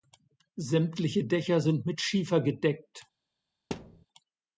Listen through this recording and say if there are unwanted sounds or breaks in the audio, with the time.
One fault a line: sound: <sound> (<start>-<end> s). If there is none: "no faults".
sound: thud (3.7-4.1 s)